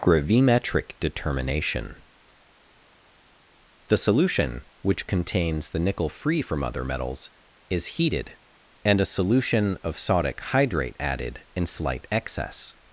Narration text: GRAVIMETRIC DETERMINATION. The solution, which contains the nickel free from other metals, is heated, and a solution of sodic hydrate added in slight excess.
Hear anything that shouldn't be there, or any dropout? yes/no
no